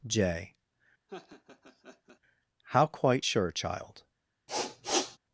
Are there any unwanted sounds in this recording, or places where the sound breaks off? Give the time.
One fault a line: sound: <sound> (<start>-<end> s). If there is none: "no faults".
sound: laugh (1.1-2.2 s)
sound: sniff (4.5-5.2 s)